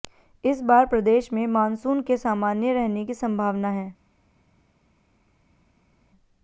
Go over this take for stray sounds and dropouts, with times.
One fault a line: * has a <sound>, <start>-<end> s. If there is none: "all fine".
all fine